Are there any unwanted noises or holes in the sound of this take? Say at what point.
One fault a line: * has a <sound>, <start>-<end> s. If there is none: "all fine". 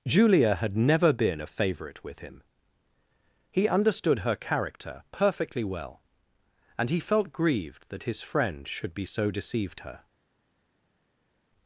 all fine